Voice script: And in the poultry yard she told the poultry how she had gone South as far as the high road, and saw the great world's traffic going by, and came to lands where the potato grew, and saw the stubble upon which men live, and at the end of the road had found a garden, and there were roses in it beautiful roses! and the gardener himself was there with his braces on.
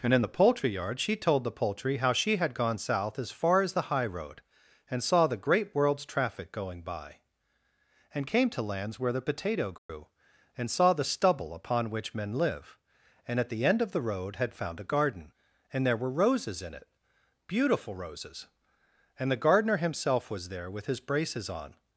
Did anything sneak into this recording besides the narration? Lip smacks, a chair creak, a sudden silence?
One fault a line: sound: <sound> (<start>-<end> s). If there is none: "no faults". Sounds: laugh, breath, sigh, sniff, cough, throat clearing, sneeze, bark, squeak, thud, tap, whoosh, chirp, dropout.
sound: dropout (9.8-9.9 s)